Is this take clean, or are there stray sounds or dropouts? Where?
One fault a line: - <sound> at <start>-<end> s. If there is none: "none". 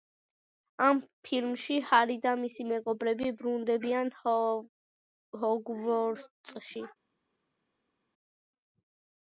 none